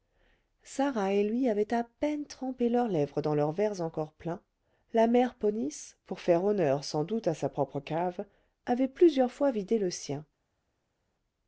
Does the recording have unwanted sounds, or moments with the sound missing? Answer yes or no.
no